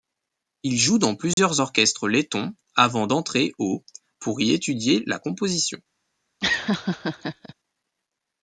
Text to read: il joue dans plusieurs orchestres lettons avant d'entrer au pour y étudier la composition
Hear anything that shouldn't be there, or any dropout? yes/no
yes